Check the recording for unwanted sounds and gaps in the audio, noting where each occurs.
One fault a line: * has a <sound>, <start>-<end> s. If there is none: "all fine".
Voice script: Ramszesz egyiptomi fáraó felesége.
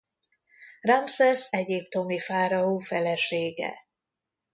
all fine